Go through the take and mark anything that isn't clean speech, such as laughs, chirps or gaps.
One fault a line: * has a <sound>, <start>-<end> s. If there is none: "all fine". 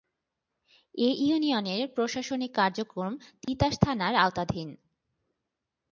* has a dropout, 3.4-3.5 s